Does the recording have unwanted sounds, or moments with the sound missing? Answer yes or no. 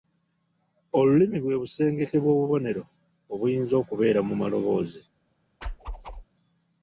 yes